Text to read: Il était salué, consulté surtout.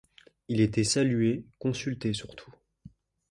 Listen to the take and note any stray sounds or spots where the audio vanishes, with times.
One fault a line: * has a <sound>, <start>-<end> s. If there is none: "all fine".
all fine